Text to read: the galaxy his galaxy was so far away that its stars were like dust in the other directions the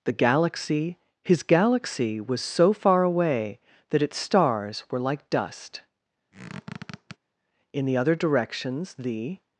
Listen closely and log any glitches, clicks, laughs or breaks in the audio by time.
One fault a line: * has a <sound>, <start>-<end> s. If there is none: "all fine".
* has a squeak, 6.3-7.2 s